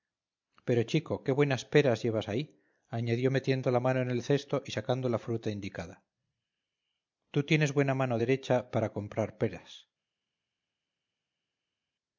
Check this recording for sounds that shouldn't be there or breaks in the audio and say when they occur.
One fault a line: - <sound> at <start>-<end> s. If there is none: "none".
none